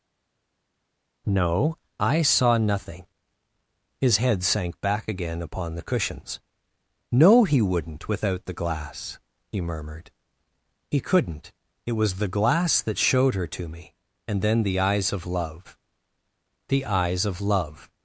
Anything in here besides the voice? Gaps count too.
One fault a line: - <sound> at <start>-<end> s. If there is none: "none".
none